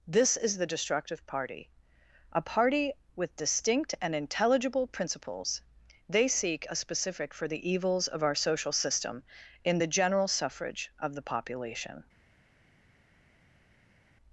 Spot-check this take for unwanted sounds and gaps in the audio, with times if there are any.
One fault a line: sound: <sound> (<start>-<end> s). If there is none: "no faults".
no faults